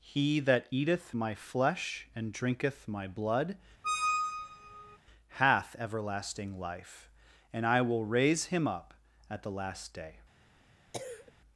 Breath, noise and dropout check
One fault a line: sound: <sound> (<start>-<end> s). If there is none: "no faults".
sound: squeak (3.8-5.0 s)
sound: cough (10.9-11.3 s)